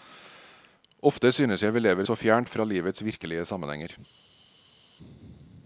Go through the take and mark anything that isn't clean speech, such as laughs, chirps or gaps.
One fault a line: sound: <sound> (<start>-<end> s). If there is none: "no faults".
no faults